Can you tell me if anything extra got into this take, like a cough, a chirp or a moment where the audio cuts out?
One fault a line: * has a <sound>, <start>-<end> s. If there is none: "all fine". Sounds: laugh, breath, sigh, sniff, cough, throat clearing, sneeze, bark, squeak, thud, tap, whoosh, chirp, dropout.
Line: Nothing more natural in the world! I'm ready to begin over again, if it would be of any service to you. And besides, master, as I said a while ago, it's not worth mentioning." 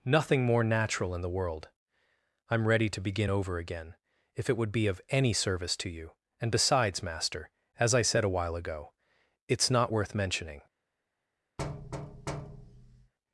* has a thud, 11.6-13.1 s